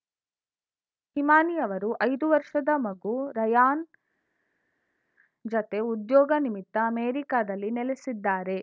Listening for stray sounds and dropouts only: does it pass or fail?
pass